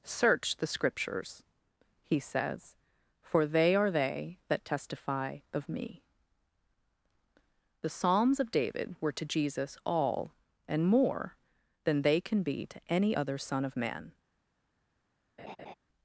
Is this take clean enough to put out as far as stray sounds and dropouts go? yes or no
no